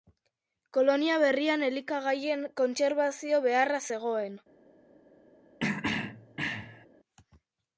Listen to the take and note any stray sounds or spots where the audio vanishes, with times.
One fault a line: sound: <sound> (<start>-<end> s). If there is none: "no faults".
sound: throat clearing (5.6-6.9 s)